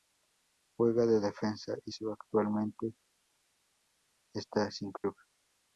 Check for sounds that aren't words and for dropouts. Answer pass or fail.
fail